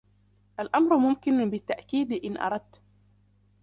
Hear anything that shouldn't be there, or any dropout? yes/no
no